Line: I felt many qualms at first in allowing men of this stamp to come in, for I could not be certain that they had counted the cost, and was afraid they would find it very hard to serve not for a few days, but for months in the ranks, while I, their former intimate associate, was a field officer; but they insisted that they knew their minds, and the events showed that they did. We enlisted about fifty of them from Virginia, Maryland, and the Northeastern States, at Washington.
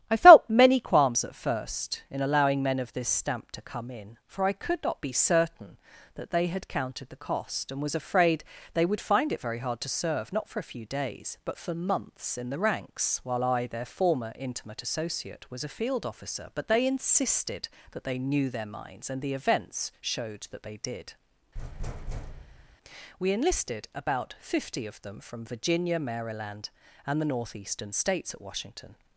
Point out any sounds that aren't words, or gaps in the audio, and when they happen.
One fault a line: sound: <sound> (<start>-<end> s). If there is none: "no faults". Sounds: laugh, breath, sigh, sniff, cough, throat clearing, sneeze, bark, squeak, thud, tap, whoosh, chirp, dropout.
sound: thud (21.5-22.8 s)